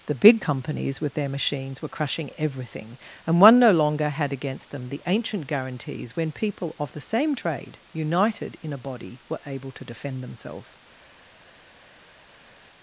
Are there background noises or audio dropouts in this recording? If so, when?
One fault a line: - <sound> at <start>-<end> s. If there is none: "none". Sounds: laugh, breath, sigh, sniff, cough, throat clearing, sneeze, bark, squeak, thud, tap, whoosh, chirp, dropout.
none